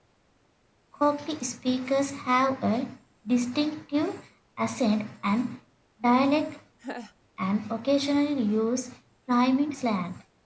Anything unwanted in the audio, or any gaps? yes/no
yes